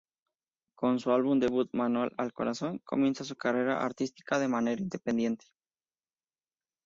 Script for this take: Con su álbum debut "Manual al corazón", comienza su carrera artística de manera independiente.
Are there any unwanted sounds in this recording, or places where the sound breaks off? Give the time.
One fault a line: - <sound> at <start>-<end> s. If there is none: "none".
none